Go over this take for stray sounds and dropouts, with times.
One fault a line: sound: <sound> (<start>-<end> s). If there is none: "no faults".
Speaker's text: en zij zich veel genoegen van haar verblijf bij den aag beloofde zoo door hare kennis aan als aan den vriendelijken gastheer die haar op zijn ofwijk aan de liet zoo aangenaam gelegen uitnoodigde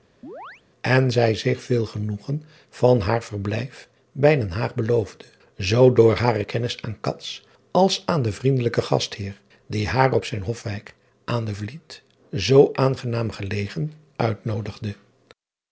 sound: chirp (0.2-0.6 s)